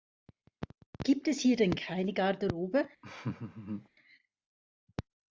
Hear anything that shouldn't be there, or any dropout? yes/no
yes